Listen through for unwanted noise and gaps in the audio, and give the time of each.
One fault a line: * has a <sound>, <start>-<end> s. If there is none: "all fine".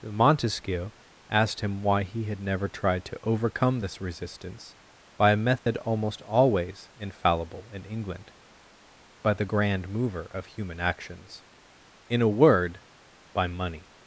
* has a dropout, 5.6-5.7 s